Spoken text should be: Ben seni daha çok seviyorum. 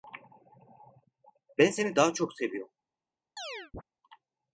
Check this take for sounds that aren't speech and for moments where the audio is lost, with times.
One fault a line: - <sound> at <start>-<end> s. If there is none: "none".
- chirp at 3.4-3.8 s